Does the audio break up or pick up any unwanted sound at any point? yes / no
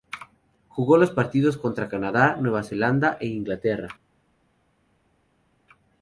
no